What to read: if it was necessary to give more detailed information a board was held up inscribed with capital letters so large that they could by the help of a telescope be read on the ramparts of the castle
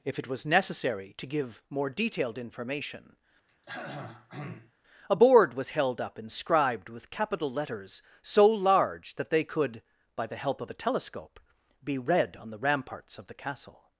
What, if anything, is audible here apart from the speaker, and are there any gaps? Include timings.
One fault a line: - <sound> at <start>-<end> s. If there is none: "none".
- throat clearing at 3.5-4.7 s